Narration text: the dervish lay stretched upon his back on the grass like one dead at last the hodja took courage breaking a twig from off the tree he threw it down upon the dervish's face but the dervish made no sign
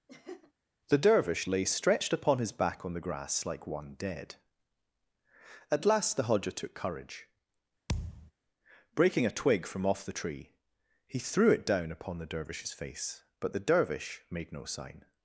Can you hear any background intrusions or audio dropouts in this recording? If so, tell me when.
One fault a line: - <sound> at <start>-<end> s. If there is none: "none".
- laugh at 0.1-0.5 s
- thud at 7.9-8.3 s